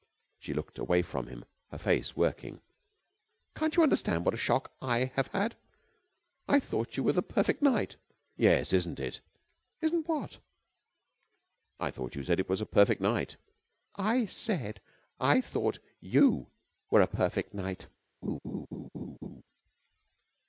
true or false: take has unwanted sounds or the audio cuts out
true